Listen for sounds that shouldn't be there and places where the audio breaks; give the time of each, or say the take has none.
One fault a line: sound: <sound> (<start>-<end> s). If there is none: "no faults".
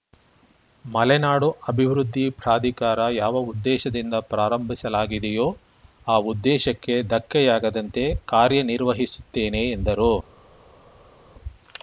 no faults